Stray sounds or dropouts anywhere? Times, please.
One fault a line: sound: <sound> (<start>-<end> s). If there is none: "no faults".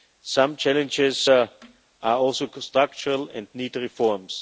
no faults